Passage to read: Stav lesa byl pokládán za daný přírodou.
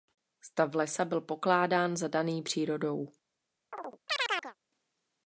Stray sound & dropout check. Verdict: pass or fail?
fail